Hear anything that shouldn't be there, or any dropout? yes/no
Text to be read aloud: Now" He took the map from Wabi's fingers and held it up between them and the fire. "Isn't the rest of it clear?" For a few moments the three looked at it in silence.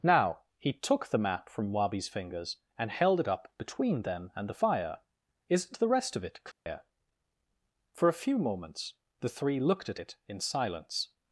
yes